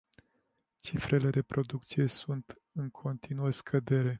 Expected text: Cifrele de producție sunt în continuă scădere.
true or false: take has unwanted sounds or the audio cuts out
false